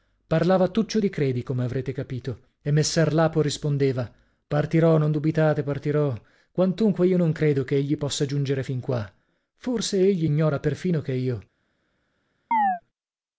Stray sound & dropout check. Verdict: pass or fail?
fail